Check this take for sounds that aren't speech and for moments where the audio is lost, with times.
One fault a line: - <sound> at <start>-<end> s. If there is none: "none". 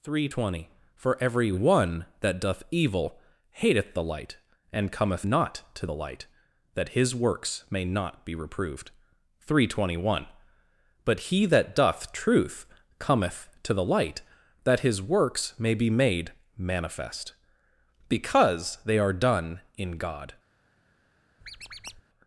- squeak at 21.4-22.0 s